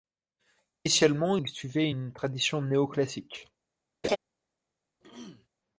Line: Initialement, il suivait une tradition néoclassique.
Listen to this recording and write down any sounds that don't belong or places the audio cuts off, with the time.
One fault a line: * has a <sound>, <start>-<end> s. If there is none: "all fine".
* has a laugh, 4.0-4.2 s
* has a throat clearing, 5.0-5.5 s